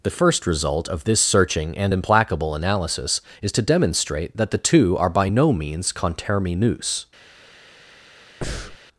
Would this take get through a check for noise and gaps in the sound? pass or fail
fail